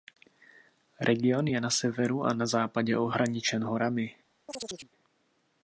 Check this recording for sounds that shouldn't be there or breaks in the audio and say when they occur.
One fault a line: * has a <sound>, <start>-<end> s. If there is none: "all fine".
* has a chirp, 4.5-4.9 s